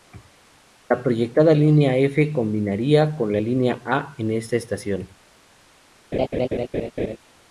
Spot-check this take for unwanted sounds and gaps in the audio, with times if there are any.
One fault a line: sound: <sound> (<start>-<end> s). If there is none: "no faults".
sound: laugh (6.1-7.2 s)